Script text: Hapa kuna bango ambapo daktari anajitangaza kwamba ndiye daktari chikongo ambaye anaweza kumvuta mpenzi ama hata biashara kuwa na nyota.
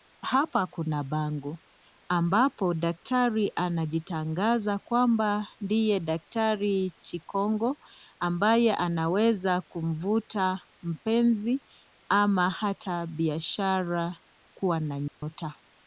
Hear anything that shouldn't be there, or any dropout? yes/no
yes